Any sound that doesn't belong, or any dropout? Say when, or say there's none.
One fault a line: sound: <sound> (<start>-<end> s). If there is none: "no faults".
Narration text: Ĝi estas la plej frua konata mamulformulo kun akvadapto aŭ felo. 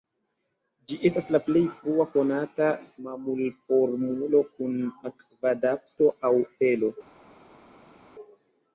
no faults